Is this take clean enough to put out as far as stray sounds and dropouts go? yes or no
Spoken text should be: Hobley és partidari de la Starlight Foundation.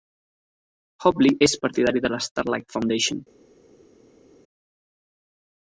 yes